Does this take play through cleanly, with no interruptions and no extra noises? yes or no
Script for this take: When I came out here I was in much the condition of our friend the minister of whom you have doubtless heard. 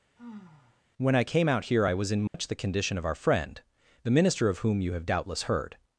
no